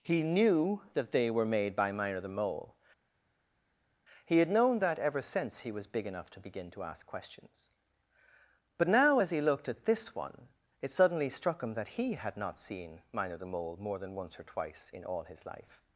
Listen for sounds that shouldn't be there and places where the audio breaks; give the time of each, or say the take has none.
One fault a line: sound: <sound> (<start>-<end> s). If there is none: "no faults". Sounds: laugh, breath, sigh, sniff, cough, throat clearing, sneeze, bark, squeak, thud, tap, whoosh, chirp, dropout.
no faults